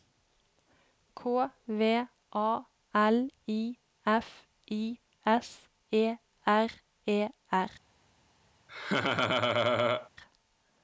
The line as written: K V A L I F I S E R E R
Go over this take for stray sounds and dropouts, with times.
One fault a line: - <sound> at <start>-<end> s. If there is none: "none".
- laugh at 8.7-10.1 s